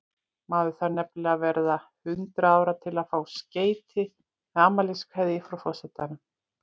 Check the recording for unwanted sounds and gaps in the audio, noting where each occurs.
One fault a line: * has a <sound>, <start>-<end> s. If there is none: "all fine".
all fine